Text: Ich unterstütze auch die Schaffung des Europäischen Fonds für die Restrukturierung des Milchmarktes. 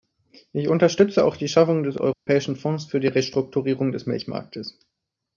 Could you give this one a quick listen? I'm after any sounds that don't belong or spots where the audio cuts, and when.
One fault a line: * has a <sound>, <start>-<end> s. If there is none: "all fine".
* has a dropout, 2.1-2.3 s